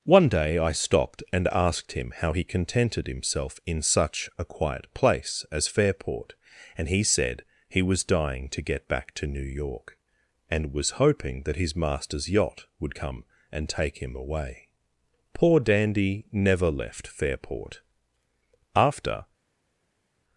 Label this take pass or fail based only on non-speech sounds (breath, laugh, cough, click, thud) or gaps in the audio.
pass